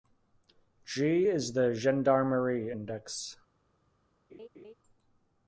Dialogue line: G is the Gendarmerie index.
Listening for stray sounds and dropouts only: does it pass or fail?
fail